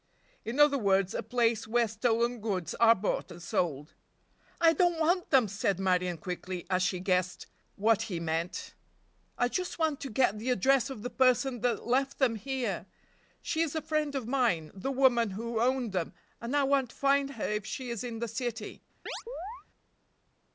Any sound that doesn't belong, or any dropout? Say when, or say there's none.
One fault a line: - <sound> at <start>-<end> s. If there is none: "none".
- chirp at 19.1-19.6 s